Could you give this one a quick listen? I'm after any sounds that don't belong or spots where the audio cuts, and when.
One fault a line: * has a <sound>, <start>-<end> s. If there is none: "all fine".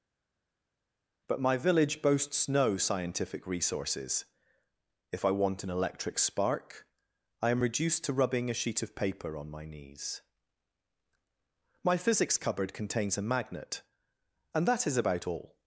all fine